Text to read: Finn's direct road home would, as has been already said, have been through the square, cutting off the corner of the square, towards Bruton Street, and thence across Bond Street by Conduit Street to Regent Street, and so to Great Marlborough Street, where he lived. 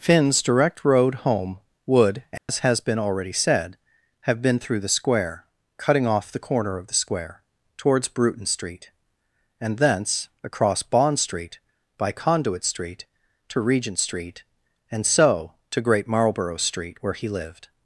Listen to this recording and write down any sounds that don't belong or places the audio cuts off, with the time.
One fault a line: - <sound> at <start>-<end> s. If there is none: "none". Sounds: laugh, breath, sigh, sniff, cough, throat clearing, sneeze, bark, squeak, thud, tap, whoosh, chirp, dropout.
- dropout at 2.4-2.5 s